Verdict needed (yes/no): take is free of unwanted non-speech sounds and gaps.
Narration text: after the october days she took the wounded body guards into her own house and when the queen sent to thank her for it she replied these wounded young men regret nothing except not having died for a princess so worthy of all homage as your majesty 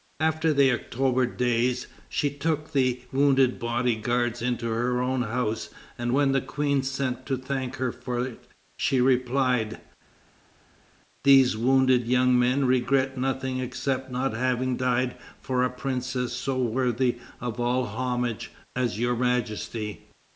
yes